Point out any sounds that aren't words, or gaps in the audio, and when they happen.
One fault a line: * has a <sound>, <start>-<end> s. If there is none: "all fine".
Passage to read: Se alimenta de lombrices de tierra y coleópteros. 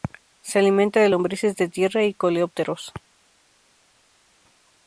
all fine